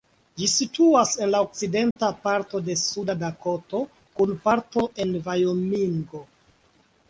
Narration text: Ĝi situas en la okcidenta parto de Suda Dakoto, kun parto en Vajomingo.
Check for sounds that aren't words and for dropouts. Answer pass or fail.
fail